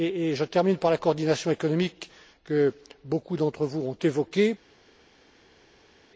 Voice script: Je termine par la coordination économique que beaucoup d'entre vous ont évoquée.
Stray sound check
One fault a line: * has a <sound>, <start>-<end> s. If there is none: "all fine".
all fine